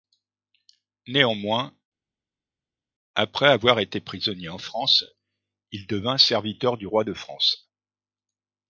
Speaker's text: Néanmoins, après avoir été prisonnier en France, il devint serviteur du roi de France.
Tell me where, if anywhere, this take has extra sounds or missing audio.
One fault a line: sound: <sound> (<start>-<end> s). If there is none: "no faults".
no faults